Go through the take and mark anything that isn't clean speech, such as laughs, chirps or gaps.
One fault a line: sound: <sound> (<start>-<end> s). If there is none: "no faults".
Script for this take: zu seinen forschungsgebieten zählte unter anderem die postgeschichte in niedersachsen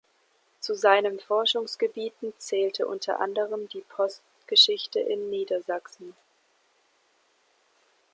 no faults